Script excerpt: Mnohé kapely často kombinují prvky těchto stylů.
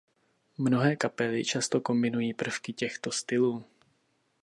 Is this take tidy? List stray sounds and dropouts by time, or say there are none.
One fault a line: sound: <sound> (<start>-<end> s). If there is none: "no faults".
no faults